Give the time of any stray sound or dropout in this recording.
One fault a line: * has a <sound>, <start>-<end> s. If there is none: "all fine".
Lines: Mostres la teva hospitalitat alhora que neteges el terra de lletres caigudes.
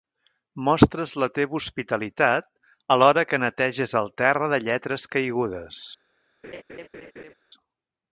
* has a laugh, 6.4-7.3 s